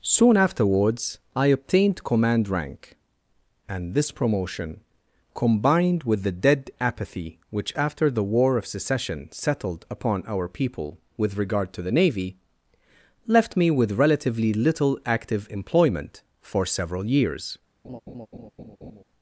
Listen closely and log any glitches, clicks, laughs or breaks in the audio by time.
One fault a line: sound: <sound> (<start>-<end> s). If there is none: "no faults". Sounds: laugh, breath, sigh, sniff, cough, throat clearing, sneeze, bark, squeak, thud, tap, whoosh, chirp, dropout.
sound: laugh (17.8-19.0 s)